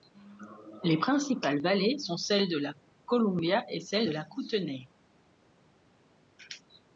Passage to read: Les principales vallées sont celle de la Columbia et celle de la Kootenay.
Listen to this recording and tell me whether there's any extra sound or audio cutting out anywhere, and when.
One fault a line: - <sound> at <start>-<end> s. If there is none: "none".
none